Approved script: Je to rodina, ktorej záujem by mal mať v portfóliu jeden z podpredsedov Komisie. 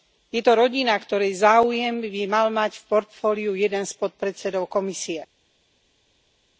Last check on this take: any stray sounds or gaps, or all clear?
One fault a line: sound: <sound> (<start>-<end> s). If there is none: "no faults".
no faults